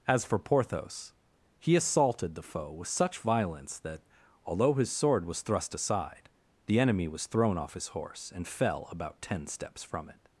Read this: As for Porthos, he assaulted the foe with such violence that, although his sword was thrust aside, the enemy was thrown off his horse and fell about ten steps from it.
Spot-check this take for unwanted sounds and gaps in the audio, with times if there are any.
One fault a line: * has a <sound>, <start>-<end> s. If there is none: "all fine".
all fine